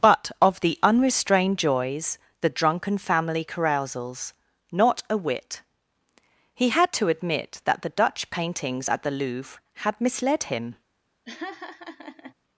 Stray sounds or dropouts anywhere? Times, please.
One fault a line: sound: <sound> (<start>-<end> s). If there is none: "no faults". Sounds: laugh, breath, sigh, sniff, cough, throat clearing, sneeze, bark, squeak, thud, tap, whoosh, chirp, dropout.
sound: laugh (11.3-12.3 s)